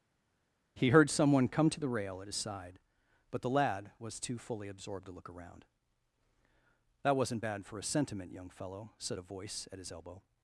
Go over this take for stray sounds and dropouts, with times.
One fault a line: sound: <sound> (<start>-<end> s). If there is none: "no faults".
no faults